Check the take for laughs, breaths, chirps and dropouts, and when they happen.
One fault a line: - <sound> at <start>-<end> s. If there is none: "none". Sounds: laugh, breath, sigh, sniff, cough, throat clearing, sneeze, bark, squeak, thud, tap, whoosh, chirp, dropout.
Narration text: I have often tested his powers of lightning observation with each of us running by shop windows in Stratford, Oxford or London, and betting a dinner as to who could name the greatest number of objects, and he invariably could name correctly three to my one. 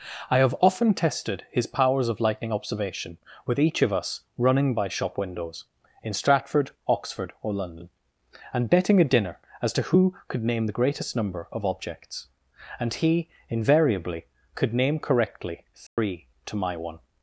- dropout at 15.9-16.0 s